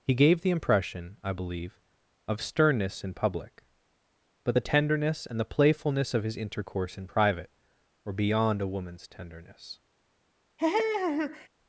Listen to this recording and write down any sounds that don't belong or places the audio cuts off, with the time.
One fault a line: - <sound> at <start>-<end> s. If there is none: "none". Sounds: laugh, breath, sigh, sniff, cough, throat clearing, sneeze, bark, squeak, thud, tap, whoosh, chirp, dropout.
- laugh at 10.6-11.5 s